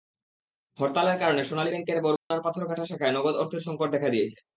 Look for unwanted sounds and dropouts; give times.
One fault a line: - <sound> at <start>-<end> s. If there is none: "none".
- dropout at 2.2-2.3 s